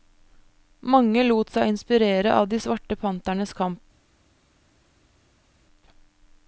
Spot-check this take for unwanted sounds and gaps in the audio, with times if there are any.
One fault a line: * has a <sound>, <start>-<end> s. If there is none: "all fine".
all fine